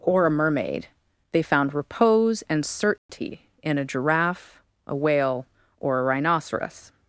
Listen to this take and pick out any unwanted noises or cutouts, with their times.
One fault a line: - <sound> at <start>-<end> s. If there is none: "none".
- dropout at 3.0-3.1 s